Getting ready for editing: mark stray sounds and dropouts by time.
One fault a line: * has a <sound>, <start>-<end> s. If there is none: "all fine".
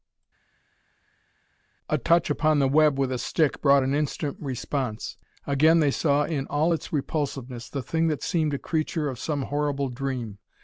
all fine